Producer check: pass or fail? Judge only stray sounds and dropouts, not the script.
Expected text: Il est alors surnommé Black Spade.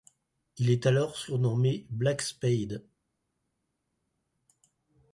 pass